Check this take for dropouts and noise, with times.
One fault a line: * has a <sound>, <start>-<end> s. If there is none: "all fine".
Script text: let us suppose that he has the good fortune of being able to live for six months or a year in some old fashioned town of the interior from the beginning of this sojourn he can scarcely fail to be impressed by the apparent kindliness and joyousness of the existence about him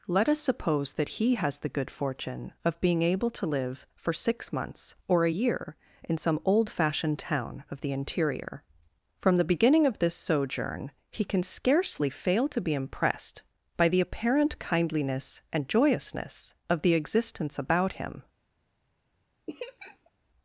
* has a laugh, 19.5-20.1 s